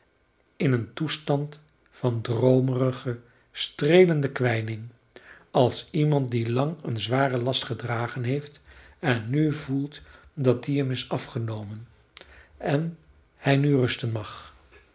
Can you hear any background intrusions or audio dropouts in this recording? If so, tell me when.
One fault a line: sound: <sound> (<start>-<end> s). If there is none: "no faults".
no faults